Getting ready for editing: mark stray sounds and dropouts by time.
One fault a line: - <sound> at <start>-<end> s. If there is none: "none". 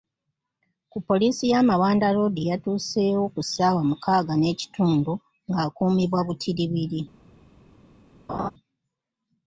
- laugh at 8.3-8.5 s